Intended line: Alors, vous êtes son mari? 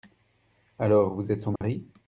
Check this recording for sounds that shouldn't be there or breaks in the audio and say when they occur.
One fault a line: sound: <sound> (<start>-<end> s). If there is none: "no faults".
sound: dropout (1.6-1.6 s)